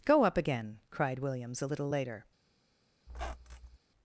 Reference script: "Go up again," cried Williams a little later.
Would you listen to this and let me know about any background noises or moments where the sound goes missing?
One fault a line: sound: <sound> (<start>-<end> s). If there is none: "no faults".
sound: squeak (3.1-3.8 s)